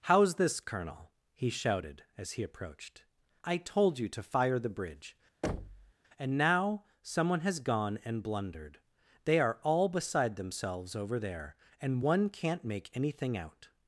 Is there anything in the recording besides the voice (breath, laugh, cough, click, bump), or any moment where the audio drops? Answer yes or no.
yes